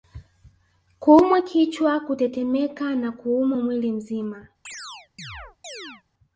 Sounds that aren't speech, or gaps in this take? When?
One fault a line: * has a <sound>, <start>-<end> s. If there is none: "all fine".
* has a chirp, 4.7-6.0 s